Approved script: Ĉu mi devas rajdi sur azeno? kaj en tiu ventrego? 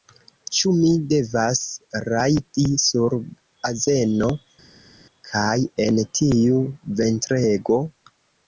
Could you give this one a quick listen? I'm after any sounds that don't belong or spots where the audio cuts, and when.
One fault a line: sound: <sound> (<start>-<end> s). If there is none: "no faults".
no faults